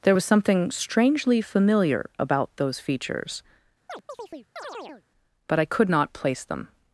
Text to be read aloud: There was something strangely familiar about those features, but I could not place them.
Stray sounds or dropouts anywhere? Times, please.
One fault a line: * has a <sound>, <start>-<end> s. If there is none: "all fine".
* has a chirp, 3.9-5.0 s